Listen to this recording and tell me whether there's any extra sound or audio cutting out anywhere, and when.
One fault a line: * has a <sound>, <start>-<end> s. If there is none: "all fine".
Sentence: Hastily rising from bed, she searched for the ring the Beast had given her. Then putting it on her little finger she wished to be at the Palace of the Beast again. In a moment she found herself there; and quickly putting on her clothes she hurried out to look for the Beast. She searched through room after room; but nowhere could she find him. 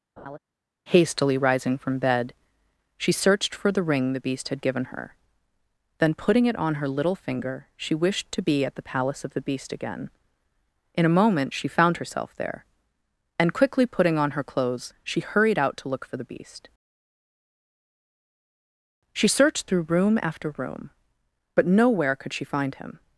* has a laugh, 0.2-0.4 s